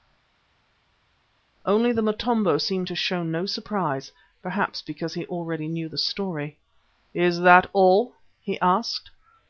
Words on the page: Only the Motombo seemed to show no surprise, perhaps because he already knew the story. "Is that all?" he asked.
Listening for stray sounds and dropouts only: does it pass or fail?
pass